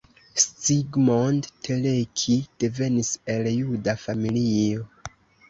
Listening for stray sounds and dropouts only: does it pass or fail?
pass